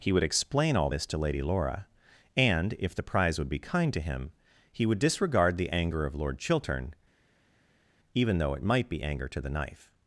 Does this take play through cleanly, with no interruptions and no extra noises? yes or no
yes